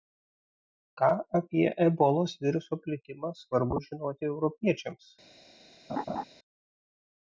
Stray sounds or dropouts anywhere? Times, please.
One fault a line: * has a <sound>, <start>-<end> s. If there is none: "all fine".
* has a laugh, 5.9-6.2 s